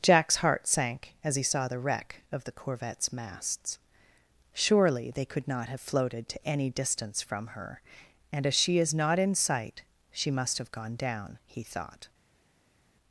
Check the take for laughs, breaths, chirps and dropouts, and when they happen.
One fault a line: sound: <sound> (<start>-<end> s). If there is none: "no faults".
no faults